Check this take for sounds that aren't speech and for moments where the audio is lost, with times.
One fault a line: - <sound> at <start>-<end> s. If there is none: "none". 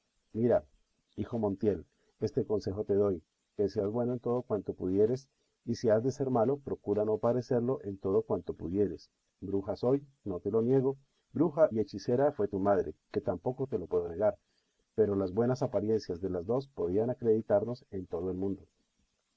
none